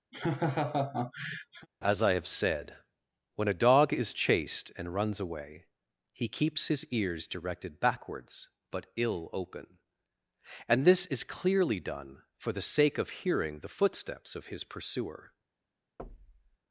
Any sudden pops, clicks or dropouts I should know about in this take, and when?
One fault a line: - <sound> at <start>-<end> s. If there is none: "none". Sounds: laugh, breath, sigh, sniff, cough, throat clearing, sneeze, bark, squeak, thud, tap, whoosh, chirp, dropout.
- laugh at 0.1-1.7 s
- thud at 16.0-16.6 s